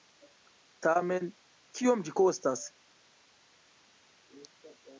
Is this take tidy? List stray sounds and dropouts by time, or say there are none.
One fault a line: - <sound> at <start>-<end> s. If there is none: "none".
none